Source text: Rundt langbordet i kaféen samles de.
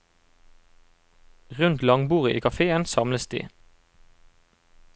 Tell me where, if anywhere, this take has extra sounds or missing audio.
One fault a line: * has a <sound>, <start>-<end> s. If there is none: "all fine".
all fine